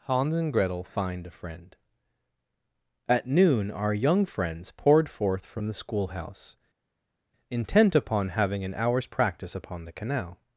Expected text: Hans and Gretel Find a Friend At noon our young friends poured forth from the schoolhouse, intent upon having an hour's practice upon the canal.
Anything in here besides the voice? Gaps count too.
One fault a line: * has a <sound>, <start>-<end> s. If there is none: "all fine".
all fine